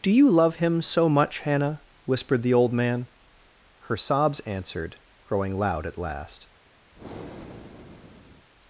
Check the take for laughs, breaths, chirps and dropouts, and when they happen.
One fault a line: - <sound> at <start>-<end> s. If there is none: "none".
- breath at 6.9-8.5 s